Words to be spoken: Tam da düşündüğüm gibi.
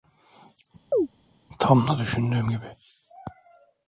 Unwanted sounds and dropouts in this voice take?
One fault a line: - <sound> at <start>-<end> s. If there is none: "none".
- chirp at 0.9-1.1 s